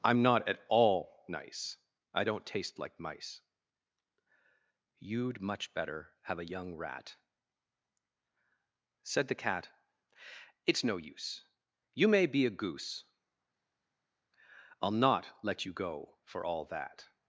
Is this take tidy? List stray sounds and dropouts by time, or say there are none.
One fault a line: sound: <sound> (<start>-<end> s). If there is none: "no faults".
no faults